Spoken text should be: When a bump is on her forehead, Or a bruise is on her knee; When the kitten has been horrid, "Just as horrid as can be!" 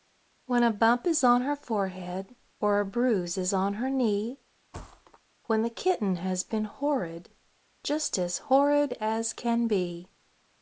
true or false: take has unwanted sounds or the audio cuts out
true